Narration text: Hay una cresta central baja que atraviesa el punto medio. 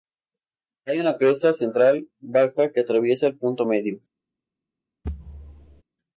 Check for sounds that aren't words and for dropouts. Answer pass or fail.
fail